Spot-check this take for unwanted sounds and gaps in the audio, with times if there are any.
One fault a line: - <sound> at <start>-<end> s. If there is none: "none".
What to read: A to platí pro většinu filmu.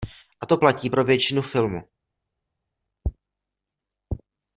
none